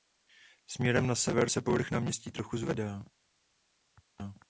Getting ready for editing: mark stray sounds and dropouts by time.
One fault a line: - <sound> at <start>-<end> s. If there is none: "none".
none